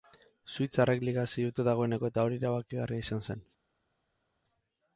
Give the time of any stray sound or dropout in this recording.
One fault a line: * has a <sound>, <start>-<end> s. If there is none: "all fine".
all fine